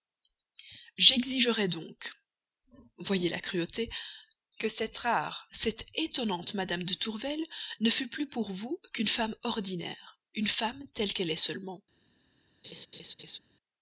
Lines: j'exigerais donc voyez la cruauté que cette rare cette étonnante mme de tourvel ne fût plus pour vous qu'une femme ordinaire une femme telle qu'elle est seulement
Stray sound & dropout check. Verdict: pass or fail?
fail